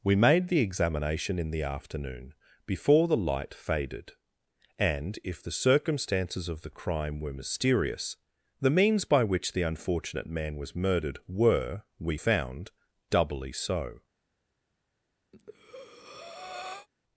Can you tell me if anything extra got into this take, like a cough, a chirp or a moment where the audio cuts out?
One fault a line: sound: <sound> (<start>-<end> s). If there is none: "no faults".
sound: breath (15.3-16.9 s)